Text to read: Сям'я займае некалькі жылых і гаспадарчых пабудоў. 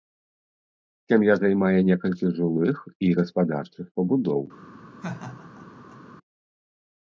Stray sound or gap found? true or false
true